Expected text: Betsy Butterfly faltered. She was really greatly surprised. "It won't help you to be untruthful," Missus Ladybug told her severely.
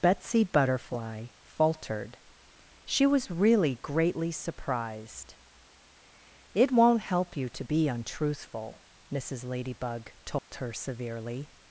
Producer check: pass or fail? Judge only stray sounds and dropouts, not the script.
fail